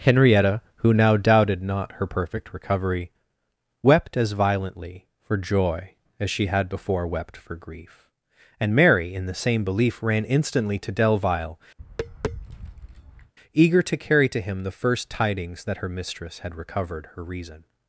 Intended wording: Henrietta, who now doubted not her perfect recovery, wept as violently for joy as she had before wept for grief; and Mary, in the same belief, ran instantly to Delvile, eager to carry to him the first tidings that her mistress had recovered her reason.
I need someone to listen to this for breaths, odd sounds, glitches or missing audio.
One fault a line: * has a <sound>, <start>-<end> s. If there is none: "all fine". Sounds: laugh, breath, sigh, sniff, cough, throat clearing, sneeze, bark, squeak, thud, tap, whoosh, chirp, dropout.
* has a tap, 11.8-13.3 s